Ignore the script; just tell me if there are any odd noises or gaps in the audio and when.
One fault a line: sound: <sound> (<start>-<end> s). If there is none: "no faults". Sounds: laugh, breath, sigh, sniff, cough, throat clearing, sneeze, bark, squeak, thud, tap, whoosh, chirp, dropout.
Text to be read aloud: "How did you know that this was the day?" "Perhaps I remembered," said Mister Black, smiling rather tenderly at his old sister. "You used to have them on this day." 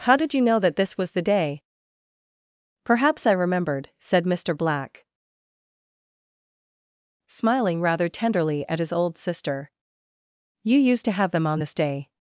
no faults